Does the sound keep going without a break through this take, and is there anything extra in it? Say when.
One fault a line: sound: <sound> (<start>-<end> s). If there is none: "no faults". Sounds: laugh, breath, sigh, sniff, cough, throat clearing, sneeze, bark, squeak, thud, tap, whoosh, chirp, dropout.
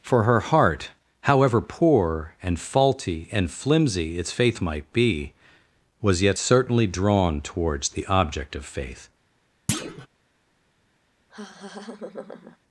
sound: thud (9.7-10.1 s)
sound: laugh (11.3-12.6 s)